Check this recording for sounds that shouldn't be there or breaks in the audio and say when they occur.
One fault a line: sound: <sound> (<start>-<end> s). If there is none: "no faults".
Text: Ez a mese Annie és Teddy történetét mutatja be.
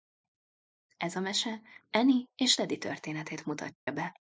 sound: dropout (3.8-3.9 s)